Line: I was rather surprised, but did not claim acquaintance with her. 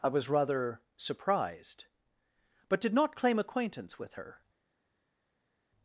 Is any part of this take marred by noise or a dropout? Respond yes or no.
no